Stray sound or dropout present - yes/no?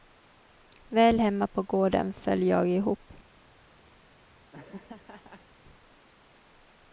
yes